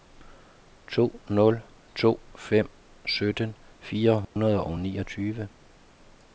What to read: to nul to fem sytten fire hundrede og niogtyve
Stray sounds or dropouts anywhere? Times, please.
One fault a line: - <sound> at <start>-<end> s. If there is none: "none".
- dropout at 4.2-4.4 s